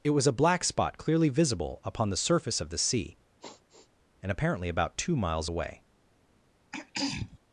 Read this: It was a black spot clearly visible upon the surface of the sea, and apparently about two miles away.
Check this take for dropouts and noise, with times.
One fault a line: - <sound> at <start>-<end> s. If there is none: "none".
- sigh at 3.4-3.9 s
- throat clearing at 6.7-7.4 s